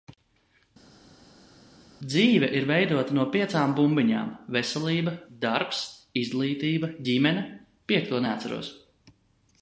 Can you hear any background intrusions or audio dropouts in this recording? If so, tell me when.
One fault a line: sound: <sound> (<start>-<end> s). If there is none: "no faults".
no faults